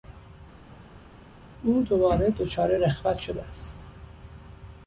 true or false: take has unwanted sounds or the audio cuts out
false